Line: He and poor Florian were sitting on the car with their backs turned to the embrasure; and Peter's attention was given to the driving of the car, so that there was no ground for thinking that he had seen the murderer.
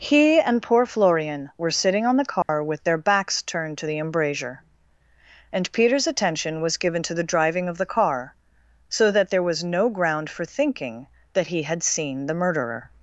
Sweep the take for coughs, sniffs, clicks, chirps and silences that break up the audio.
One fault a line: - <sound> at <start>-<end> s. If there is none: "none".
- dropout at 2.4-2.5 s